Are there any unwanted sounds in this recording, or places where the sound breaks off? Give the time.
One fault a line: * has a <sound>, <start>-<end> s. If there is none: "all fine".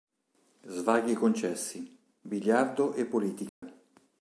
* has a dropout, 3.5-3.6 s